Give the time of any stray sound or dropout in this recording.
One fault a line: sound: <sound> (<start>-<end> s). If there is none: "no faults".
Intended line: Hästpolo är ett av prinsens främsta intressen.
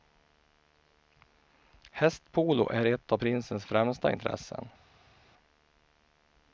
no faults